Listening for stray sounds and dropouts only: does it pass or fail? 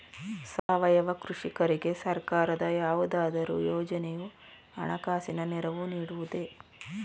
fail